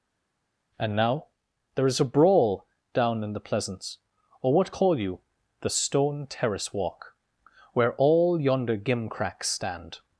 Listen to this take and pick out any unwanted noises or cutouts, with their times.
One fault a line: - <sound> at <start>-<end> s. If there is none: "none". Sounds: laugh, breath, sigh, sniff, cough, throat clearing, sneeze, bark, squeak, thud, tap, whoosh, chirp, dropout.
none